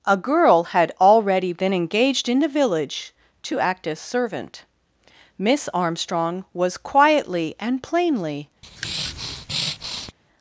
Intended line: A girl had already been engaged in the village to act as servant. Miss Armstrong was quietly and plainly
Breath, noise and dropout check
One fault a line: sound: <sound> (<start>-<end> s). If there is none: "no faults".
sound: breath (8.6-10.1 s)